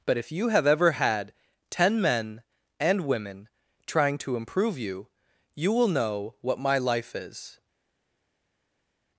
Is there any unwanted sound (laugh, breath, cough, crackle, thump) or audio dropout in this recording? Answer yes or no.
no